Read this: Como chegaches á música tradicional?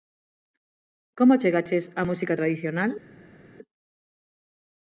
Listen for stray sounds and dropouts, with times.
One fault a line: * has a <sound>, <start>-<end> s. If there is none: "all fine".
all fine